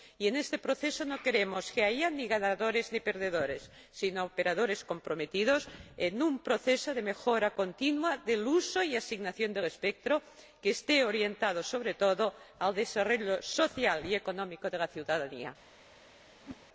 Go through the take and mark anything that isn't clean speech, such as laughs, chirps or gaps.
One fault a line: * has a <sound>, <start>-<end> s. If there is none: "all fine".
* has a whoosh, 16.4-16.7 s